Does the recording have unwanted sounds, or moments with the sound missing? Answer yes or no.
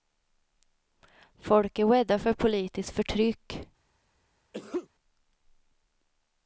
yes